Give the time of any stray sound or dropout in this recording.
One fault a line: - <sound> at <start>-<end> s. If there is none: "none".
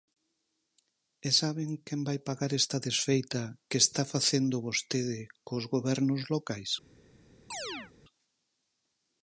- chirp at 7.5-7.9 s